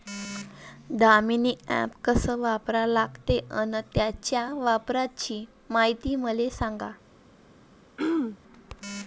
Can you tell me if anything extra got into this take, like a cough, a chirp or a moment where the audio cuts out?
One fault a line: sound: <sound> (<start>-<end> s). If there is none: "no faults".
sound: throat clearing (8.0-8.4 s)